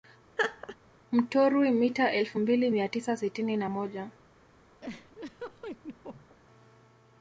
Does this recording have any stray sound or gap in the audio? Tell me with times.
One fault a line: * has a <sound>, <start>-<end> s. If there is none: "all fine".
* has a laugh, 0.4-0.8 s
* has a laugh, 4.8-6.4 s